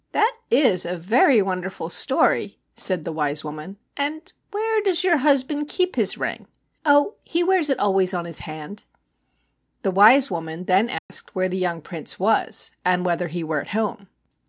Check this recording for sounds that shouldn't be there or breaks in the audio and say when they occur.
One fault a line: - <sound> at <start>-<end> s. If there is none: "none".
- dropout at 11.0-11.1 s